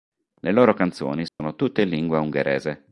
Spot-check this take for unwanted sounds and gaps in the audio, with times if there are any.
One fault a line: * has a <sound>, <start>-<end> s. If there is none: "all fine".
* has a dropout, 1.3-1.4 s